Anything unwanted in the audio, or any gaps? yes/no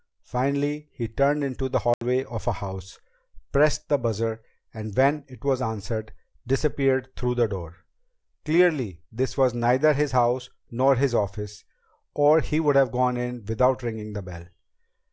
yes